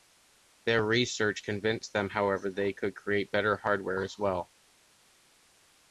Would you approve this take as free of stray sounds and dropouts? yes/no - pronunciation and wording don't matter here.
yes